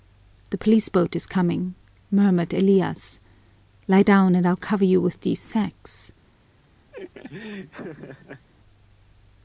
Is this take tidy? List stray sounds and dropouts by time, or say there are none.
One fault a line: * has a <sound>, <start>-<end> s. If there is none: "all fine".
* has a laugh, 6.9-8.5 s